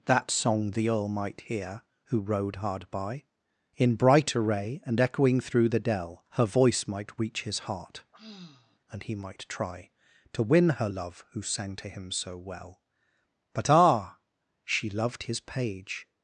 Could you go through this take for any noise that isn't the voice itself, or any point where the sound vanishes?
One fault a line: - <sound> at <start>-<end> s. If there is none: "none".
- sigh at 8.1-8.8 s